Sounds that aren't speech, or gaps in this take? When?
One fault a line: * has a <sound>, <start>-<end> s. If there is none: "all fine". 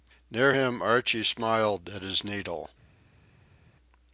all fine